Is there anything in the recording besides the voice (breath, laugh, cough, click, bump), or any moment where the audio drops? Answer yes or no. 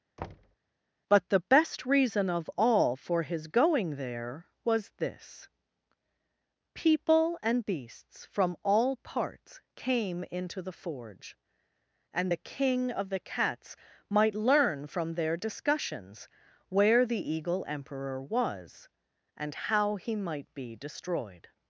yes